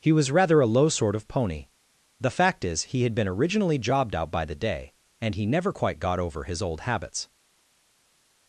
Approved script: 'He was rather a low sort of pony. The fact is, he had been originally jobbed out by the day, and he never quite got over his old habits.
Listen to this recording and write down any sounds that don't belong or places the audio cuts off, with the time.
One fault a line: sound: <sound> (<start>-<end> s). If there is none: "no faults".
no faults